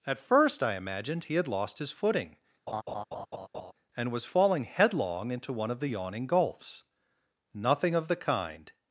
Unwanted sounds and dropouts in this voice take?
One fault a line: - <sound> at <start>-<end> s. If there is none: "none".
- laugh at 2.7-3.7 s